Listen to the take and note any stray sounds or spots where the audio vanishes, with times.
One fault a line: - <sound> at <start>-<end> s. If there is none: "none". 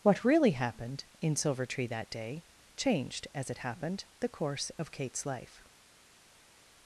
none